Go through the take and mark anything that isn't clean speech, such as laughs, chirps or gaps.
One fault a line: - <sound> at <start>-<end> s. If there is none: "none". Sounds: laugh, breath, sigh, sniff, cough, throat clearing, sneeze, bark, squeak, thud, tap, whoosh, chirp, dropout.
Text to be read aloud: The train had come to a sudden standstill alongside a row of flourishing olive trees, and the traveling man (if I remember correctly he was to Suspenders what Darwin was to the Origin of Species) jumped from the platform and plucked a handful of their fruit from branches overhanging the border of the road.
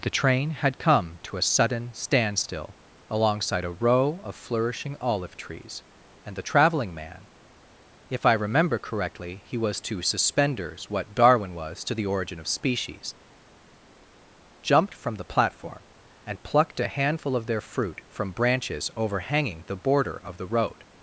none